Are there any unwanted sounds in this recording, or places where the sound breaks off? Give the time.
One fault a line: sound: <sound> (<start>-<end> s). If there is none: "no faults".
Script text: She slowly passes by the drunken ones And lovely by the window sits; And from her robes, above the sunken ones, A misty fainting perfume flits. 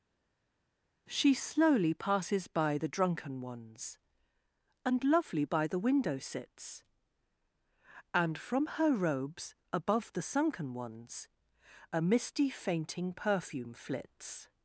no faults